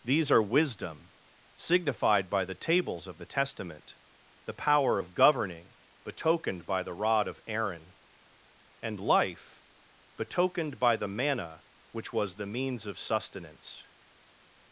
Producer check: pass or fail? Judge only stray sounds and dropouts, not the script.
pass